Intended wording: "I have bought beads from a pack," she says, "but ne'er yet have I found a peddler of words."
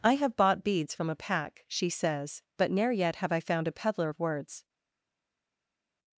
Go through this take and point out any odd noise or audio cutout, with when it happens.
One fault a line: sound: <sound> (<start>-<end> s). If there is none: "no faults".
no faults